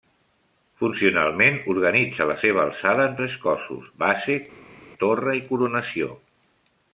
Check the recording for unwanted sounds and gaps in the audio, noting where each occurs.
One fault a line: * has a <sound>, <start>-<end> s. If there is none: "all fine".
all fine